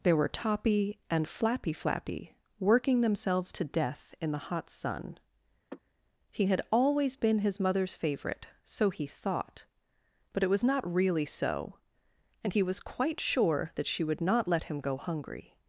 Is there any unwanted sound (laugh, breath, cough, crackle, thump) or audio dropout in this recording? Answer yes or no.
yes